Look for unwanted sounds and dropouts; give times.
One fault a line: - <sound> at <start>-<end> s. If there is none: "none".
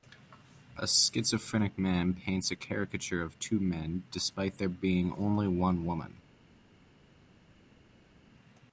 none